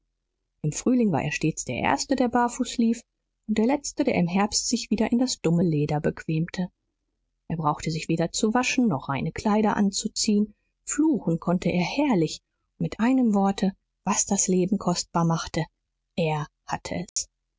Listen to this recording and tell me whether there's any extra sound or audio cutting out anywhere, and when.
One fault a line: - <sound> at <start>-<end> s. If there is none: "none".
- dropout at 17.1-17.2 s